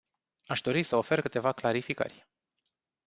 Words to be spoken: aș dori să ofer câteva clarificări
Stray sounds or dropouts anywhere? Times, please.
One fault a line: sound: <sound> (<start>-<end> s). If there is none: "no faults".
no faults